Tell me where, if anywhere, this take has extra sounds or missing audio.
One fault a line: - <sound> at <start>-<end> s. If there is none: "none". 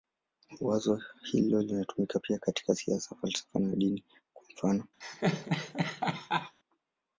- laugh at 5.0-6.6 s